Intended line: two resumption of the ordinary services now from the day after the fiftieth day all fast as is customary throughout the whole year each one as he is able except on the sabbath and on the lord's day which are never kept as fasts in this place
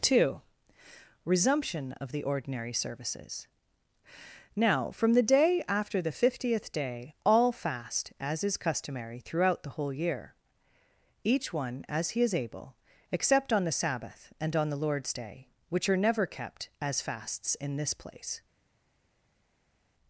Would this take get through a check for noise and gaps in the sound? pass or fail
pass